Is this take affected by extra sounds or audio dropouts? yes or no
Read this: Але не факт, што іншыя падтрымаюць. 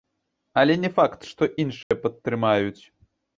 yes